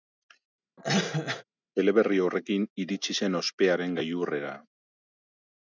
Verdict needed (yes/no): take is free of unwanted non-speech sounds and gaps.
no